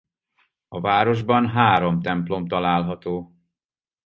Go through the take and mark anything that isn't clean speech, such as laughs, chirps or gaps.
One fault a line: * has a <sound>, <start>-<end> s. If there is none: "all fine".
all fine